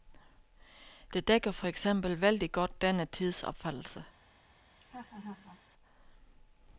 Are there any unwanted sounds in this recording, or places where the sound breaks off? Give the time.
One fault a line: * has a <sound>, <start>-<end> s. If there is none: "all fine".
* has a laugh, 4.7-5.6 s